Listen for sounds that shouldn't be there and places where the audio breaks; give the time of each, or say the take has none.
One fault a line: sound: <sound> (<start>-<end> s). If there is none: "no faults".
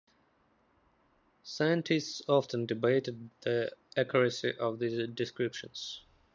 no faults